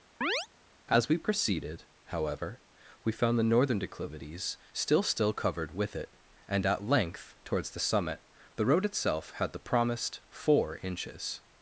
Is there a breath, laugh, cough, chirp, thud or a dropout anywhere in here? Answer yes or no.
yes